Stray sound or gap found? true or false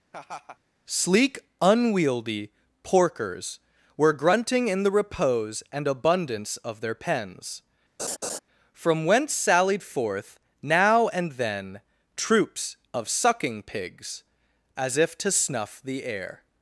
true